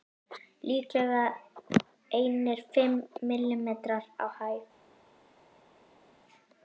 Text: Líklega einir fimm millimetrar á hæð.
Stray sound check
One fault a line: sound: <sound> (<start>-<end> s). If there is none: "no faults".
no faults